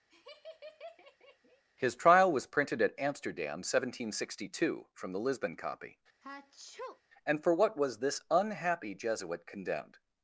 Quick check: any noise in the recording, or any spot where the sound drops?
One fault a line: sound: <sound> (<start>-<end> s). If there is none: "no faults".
sound: laugh (0.1-1.6 s)
sound: sneeze (6.2-7.0 s)